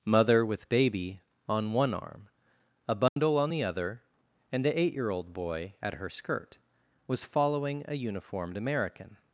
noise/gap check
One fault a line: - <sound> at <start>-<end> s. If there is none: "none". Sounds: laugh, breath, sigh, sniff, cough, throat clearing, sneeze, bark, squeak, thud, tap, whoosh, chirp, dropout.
- dropout at 3.1-3.2 s